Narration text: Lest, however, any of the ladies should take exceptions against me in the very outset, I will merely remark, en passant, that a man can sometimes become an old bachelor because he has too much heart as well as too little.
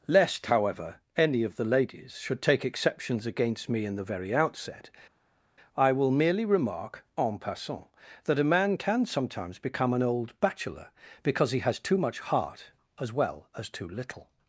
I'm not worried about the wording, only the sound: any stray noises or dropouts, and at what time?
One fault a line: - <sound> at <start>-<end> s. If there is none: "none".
none